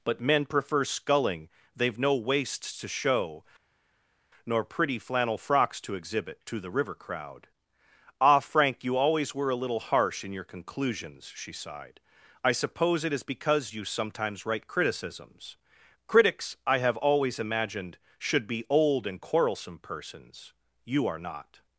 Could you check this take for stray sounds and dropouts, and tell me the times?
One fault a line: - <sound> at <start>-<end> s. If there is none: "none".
none